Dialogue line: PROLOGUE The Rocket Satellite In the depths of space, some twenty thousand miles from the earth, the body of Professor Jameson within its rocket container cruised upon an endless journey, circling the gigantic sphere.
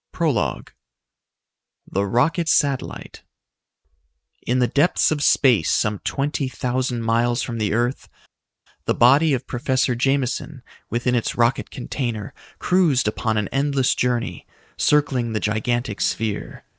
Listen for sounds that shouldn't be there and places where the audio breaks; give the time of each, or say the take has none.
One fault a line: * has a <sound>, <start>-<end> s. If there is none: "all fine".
all fine